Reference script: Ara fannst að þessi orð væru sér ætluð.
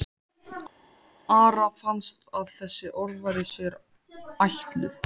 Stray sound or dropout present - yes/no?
no